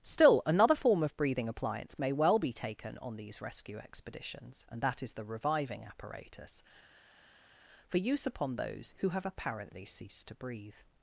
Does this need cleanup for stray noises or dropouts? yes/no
no